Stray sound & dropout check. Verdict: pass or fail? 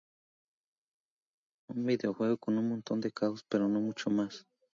pass